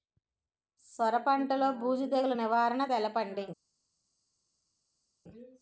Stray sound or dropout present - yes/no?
no